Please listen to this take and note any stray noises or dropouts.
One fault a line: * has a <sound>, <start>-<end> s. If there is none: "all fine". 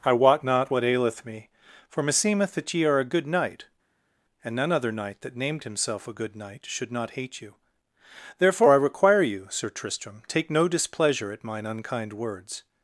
all fine